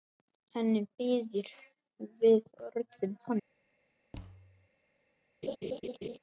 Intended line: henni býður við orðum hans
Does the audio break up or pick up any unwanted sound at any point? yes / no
yes